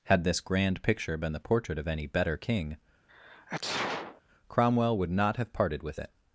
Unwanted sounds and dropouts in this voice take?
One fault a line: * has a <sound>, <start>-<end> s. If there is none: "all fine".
* has a sneeze, 3.1-4.2 s